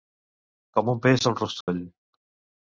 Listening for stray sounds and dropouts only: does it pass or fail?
fail